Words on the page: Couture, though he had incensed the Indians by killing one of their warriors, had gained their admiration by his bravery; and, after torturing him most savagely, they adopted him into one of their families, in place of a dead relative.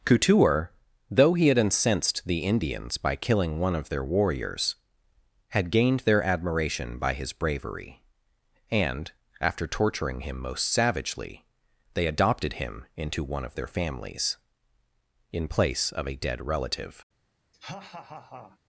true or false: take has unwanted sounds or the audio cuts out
true